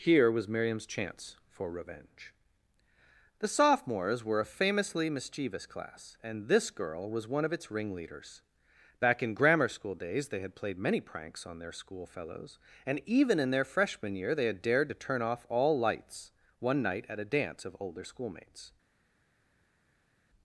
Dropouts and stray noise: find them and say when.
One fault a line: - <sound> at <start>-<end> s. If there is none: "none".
none